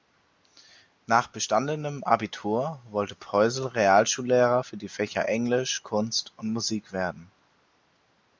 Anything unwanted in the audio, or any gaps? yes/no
no